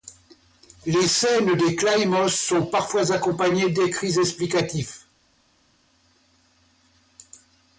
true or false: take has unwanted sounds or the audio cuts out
false